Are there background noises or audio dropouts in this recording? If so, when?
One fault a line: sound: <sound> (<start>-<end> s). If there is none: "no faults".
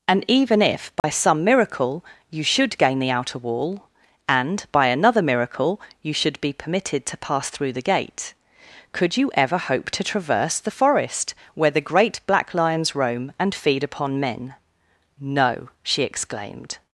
sound: dropout (1.0-1.0 s)